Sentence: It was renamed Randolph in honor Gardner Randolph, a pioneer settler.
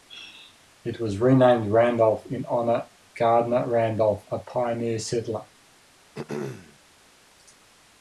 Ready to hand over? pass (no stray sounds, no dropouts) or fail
fail